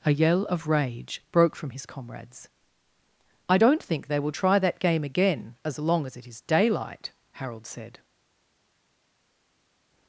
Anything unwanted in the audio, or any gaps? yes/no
no